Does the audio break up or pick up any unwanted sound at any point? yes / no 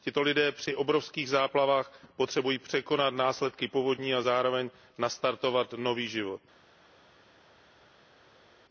no